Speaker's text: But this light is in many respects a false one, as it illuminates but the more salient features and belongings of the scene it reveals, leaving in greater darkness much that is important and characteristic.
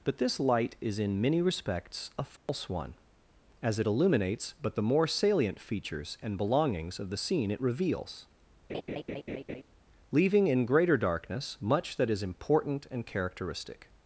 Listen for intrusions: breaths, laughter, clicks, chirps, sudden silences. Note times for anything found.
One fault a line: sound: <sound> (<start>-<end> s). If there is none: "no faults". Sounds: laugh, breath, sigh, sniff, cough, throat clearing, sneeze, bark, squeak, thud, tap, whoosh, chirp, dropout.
sound: dropout (2.4-2.5 s)
sound: laugh (8.7-9.6 s)